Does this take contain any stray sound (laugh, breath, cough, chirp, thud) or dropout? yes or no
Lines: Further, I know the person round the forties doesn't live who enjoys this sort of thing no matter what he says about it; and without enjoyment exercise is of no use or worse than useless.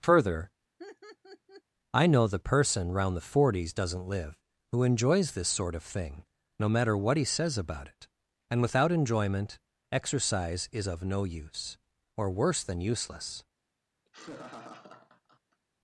yes